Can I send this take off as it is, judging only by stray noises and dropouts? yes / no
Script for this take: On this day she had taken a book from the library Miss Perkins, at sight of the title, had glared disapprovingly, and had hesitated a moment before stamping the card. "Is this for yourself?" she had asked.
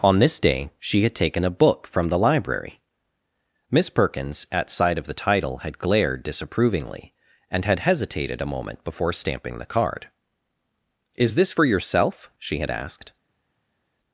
yes